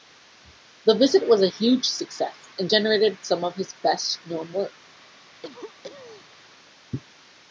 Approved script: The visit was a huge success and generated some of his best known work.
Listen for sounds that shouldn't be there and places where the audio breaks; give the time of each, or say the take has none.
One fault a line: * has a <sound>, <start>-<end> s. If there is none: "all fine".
* has a cough, 5.4-6.3 s